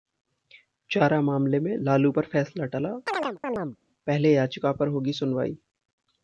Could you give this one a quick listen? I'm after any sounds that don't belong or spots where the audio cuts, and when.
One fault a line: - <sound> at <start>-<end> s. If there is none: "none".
- chirp at 3.1-3.8 s